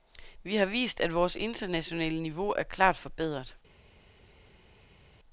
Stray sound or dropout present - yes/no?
no